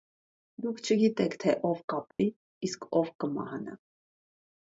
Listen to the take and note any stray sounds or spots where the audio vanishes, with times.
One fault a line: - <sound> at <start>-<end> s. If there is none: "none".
- dropout at 2.1-2.2 s